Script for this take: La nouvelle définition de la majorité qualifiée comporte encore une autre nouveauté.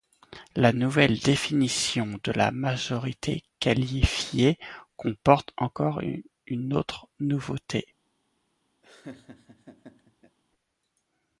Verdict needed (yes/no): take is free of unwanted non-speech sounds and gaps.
no